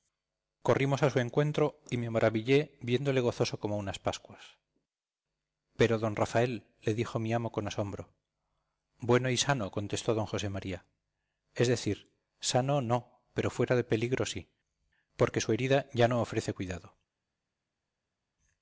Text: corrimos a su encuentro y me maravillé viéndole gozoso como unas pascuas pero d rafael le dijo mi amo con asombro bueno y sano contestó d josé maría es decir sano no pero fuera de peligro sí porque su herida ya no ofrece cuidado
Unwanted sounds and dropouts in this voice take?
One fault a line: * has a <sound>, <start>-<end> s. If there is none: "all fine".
all fine